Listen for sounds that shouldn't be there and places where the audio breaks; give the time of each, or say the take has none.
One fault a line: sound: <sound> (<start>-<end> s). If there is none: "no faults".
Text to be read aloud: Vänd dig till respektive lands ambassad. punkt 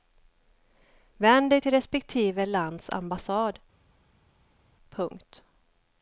no faults